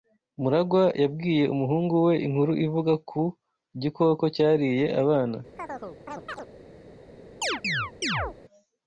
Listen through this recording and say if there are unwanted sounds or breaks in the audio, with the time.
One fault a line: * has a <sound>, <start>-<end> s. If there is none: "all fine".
* has a chirp, 5.6-6.5 s
* has a chirp, 7.4-8.4 s